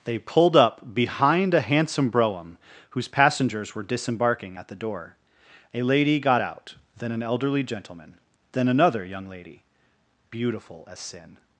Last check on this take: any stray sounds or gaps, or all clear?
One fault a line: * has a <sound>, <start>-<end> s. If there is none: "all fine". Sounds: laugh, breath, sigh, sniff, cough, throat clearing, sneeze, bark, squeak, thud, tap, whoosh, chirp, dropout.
all fine